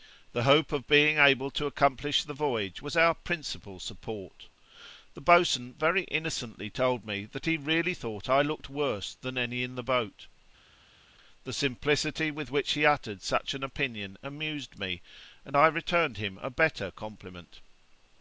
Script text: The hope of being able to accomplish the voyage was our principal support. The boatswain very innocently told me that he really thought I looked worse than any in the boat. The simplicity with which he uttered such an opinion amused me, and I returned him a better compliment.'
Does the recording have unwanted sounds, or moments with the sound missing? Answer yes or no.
no